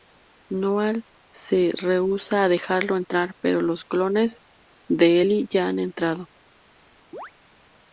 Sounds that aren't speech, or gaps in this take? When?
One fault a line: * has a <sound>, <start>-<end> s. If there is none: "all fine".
* has a chirp, 7.1-7.3 s